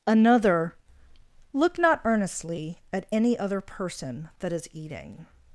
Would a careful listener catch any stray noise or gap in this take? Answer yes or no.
no